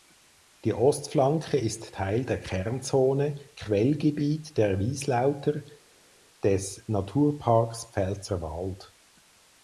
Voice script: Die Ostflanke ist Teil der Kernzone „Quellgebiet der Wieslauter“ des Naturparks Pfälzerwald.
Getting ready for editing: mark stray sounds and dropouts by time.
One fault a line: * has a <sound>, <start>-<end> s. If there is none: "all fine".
all fine